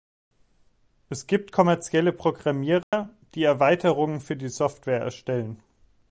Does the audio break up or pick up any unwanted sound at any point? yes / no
yes